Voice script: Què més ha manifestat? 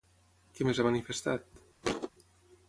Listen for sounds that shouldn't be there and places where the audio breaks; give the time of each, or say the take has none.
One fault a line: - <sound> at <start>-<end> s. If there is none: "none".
- thud at 1.8-2.1 s